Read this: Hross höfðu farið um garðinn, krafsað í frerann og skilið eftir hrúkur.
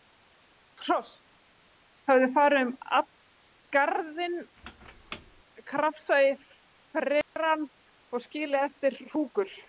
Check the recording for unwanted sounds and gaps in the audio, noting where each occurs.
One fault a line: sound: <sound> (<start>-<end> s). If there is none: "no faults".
sound: squeak (4.6-5.4 s)
sound: dropout (7.2-7.4 s)